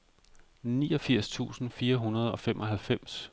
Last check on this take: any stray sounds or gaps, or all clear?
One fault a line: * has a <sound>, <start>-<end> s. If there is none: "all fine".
all fine